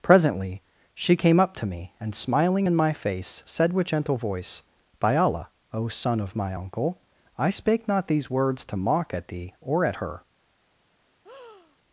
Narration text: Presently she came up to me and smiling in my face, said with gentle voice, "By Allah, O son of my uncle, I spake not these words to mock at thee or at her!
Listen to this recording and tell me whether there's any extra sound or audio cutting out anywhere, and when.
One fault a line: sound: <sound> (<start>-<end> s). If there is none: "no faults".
sound: breath (11.2-11.8 s)